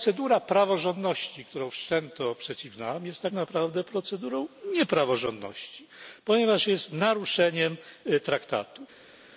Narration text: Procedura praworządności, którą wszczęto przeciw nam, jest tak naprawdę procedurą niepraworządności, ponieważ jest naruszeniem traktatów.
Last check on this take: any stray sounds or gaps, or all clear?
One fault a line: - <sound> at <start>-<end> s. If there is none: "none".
none